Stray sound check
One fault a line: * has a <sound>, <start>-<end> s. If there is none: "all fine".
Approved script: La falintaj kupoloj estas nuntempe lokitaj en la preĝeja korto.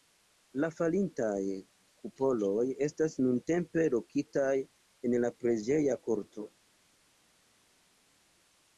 all fine